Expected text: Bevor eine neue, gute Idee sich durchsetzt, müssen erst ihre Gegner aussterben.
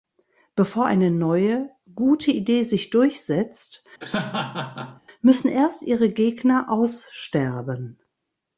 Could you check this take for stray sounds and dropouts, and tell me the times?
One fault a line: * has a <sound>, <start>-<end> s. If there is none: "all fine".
* has a laugh, 4.0-5.0 s